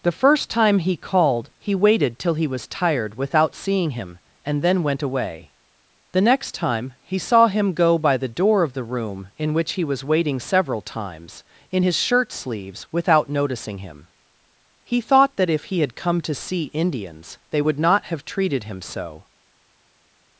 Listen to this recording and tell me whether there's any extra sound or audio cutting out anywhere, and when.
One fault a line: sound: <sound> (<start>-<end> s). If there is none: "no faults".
no faults